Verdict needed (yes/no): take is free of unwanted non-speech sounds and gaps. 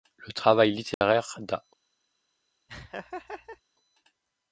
no